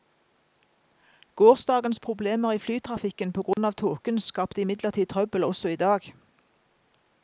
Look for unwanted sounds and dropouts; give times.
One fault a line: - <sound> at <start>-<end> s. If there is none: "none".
- dropout at 3.5-3.6 s